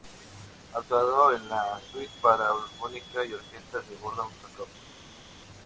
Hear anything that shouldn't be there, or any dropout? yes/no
no